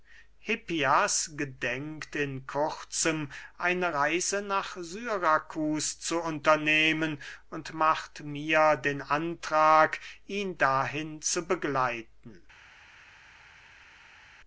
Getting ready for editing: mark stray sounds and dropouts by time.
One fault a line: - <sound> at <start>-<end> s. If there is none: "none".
none